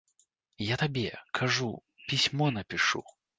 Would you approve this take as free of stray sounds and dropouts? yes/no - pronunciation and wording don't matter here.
yes